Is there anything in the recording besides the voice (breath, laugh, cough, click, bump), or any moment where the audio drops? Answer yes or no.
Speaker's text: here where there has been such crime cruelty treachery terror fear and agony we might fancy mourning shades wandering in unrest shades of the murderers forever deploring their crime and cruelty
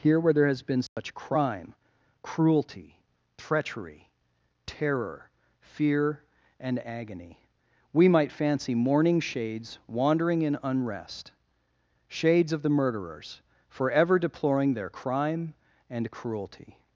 yes